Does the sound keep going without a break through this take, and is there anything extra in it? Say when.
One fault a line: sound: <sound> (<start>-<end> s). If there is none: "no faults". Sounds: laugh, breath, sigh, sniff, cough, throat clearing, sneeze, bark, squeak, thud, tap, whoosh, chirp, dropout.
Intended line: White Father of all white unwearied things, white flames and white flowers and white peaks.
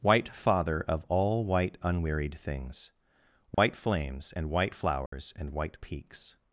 sound: dropout (3.5-3.6 s)
sound: dropout (5.1-5.1 s)